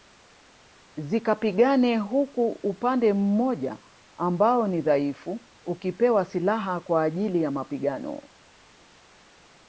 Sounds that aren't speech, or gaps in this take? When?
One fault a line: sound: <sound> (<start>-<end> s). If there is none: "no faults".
no faults